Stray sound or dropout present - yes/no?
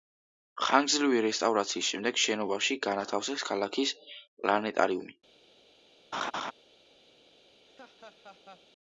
yes